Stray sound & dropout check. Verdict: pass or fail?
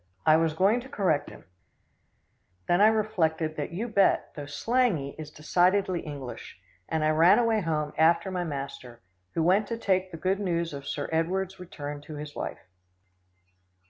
pass